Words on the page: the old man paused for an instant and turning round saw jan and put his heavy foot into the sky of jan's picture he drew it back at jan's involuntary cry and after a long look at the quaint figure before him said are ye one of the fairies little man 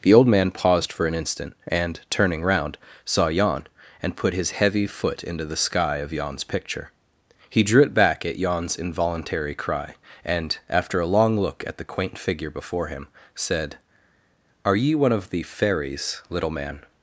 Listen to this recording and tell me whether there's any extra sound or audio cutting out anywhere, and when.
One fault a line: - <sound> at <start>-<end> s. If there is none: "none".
none